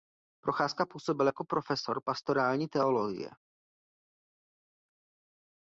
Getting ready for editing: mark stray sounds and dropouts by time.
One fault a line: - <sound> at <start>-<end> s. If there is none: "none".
none